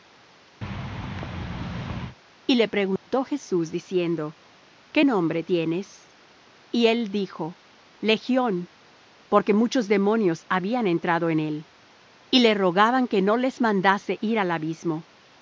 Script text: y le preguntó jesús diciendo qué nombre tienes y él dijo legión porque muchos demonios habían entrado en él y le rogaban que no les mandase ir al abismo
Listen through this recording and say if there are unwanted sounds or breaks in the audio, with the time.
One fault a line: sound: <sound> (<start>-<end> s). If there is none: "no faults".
sound: thud (0.6-2.2 s)
sound: dropout (3.0-3.1 s)